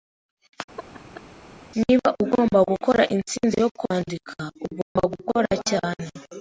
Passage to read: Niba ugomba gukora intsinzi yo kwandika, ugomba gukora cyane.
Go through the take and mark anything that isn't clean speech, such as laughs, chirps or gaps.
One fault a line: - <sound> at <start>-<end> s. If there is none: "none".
- laugh at 0.8-1.3 s
- dropout at 4.8-5.0 s